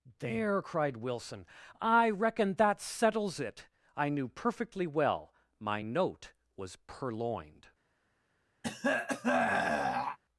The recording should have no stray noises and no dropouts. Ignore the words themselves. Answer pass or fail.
fail